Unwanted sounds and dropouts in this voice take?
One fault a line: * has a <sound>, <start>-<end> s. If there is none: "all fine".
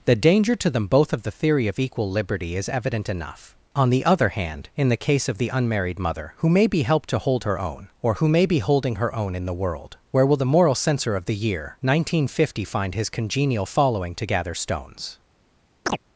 * has a chirp, 15.9-16.0 s